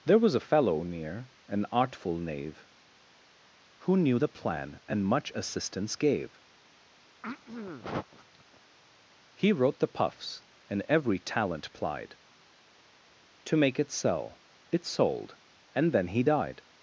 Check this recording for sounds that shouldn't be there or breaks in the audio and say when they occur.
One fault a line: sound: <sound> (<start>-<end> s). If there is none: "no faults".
sound: throat clearing (7.2-8.6 s)